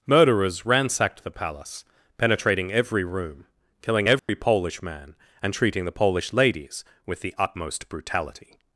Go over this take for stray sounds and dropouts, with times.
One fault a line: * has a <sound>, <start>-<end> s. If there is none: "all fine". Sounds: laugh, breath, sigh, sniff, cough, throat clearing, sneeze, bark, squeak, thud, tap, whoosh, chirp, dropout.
* has a dropout, 4.2-4.3 s